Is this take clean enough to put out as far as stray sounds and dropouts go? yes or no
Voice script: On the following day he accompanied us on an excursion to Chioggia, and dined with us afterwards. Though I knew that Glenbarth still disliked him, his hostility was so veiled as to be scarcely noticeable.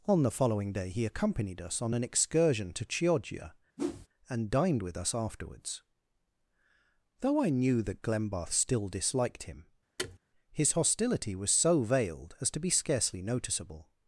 no